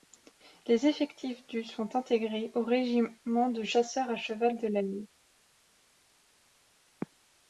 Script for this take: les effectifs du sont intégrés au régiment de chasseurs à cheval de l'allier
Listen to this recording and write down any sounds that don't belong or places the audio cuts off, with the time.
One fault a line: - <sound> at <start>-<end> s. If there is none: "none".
none